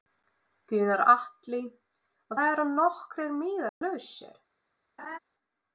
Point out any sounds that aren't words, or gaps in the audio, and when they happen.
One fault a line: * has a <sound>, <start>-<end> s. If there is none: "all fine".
* has a dropout, 3.7-3.8 s
* has a laugh, 5.0-5.2 s